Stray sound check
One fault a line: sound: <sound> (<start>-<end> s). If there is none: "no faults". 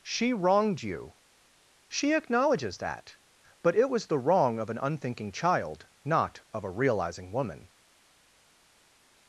no faults